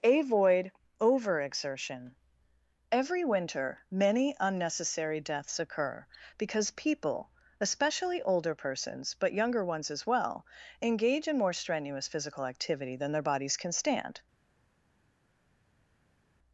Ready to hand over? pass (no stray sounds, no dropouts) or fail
pass